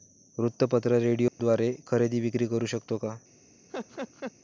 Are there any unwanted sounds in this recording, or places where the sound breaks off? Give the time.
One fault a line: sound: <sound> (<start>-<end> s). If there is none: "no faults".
sound: dropout (1.3-1.4 s)
sound: laugh (3.7-4.3 s)